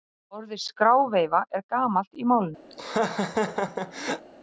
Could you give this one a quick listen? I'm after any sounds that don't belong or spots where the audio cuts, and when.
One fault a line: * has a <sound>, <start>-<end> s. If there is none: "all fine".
* has a laugh, 2.7-4.3 s